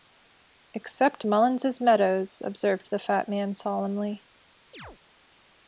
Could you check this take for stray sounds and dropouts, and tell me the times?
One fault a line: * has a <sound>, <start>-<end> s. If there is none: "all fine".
* has a chirp, 4.7-5.0 s